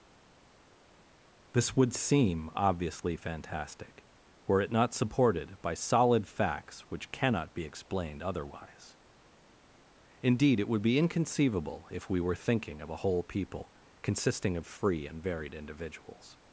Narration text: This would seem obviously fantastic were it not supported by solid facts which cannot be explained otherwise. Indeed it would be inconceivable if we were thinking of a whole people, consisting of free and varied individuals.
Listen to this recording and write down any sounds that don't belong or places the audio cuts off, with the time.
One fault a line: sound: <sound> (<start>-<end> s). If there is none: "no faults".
no faults